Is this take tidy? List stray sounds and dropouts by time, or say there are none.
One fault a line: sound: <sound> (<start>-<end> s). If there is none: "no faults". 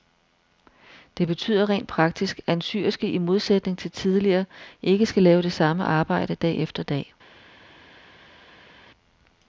no faults